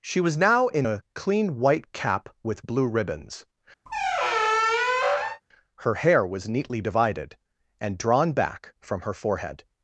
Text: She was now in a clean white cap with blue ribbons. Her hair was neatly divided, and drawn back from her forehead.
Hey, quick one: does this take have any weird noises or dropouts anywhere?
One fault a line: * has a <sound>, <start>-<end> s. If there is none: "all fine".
* has a squeak, 3.9-5.4 s